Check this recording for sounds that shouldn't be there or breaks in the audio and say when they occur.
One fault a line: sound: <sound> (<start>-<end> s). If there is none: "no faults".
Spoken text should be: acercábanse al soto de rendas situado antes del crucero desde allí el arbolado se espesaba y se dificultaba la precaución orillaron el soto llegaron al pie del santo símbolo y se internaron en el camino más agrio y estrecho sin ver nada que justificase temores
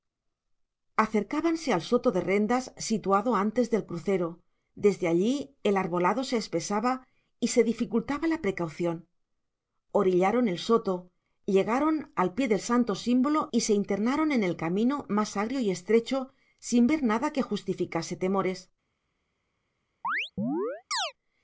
sound: chirp (20.0-21.1 s)